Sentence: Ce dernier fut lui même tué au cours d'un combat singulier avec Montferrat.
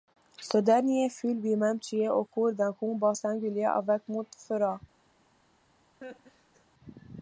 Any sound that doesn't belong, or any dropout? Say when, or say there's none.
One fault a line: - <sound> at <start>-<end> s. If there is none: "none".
- laugh at 6.0-6.7 s